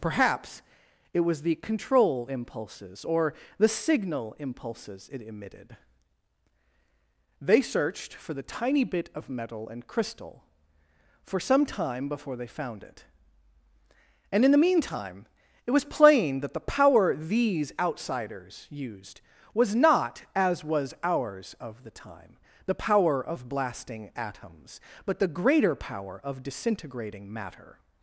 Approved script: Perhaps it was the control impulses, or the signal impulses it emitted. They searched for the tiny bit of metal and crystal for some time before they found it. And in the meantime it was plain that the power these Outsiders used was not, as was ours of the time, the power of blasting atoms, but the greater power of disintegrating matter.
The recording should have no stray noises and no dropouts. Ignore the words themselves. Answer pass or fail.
pass